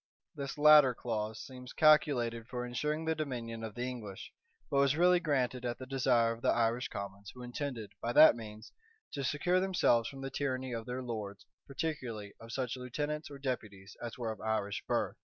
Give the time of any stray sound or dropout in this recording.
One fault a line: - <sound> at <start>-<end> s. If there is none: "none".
none